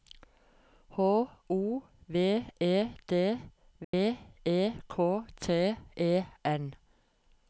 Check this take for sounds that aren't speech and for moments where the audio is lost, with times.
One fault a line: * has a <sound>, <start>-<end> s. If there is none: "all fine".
* has a dropout, 3.8-3.9 s